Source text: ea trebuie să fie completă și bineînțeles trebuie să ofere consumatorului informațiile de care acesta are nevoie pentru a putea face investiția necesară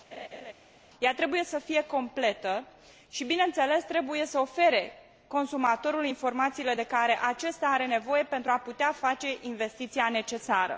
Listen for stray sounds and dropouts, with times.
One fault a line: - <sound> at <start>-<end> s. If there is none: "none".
- laugh at 0.1-0.5 s